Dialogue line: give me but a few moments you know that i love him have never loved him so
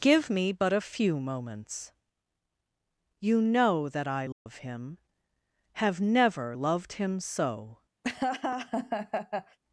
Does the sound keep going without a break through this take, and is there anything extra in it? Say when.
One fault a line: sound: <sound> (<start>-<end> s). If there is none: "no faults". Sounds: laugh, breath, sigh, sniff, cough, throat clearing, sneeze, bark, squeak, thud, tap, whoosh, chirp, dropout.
sound: dropout (4.3-4.5 s)
sound: laugh (8.0-9.6 s)